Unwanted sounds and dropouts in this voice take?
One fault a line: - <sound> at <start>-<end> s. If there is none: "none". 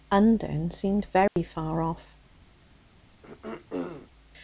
- dropout at 1.3-1.4 s
- throat clearing at 3.2-4.1 s